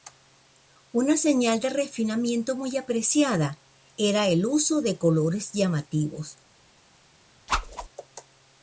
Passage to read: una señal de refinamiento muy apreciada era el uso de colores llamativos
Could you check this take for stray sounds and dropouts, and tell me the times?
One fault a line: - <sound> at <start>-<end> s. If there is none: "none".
- whoosh at 7.5-7.9 s